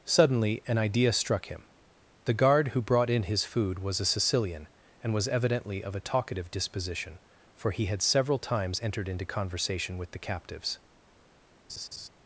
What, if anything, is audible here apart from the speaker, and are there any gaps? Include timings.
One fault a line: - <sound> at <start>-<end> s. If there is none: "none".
- laugh at 11.7-12.1 s